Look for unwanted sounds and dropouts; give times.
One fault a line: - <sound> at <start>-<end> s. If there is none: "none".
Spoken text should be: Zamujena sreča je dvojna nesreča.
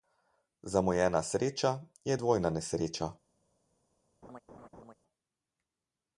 - laugh at 4.2-4.9 s